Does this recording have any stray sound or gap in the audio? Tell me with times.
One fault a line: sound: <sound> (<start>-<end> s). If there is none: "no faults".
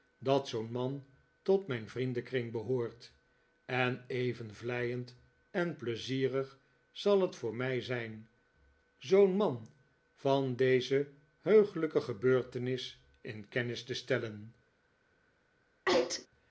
sound: sneeze (15.9-16.3 s)